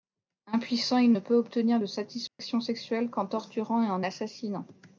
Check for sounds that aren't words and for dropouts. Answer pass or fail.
fail